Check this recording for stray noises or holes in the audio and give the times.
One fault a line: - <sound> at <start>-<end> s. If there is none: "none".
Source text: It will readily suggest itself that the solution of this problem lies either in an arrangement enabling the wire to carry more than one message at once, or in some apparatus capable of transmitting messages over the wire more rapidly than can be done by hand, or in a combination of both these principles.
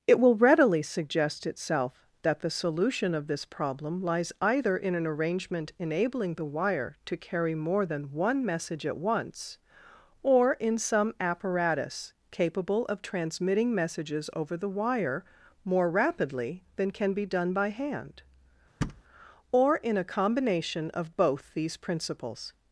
- thud at 18.8-19.0 s